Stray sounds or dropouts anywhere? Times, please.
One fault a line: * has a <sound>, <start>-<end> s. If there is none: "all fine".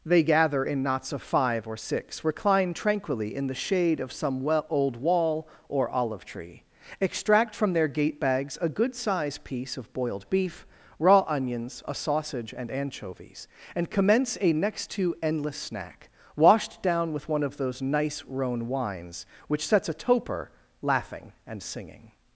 all fine